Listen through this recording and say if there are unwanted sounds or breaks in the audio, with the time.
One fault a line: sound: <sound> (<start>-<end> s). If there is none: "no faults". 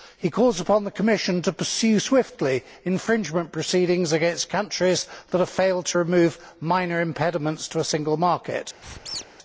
sound: squeak (8.8-9.3 s)